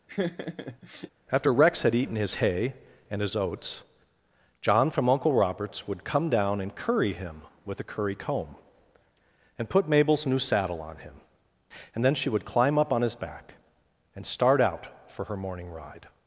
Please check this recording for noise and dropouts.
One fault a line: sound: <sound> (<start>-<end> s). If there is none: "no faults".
sound: laugh (0.1-1.1 s)